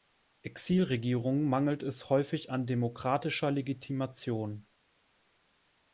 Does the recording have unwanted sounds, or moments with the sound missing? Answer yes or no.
no